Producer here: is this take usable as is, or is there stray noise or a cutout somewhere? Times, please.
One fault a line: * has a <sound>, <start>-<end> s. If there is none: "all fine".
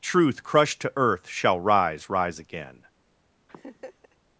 * has a laugh, 3.5-4.2 s